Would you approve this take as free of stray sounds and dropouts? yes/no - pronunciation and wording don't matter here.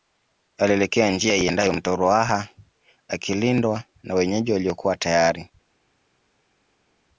yes